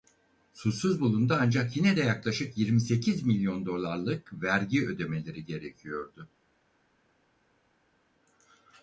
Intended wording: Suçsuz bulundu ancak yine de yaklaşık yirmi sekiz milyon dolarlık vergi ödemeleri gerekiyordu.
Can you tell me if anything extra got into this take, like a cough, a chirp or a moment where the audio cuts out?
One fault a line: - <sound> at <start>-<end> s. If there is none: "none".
none